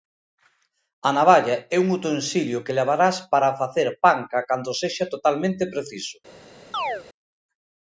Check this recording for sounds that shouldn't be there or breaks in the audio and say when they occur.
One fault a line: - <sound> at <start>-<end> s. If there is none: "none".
- chirp at 6.7-7.0 s